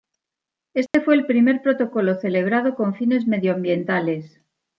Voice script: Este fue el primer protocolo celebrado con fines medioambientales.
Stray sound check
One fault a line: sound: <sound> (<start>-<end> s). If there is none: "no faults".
sound: dropout (0.9-0.9 s)